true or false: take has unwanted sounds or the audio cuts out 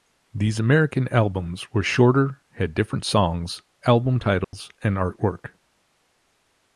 true